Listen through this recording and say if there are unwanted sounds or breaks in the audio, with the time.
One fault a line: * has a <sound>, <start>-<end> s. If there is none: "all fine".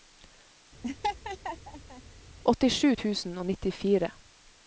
* has a laugh, 0.8-2.0 s